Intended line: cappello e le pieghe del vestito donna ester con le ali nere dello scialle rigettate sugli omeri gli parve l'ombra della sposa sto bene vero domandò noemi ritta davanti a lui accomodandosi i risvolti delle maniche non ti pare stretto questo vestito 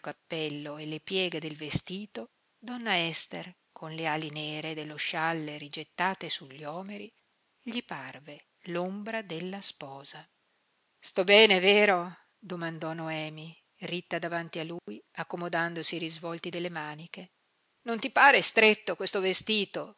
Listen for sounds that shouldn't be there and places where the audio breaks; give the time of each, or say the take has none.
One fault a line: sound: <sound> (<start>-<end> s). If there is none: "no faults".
sound: dropout (14.8-14.9 s)